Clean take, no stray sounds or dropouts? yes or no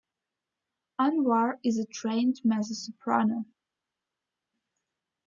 yes